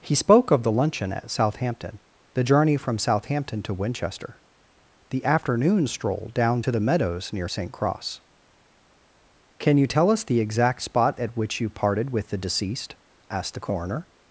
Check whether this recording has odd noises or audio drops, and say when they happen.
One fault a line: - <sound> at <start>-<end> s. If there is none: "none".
none